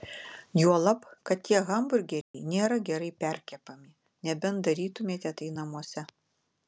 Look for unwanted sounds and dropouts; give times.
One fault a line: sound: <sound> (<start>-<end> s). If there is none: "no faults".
sound: dropout (2.2-2.3 s)